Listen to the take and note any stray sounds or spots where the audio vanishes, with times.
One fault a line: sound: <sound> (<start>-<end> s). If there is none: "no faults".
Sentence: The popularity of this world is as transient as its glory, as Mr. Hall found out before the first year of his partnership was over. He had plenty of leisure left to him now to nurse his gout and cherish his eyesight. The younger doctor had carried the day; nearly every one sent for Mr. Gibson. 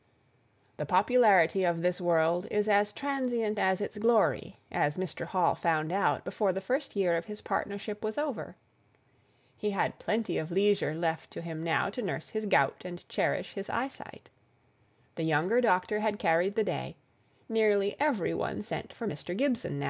no faults